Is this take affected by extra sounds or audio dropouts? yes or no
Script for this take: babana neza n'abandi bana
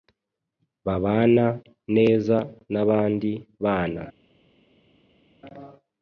no